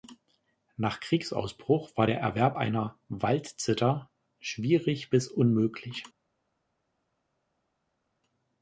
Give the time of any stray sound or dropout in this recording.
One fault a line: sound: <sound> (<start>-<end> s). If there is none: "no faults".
no faults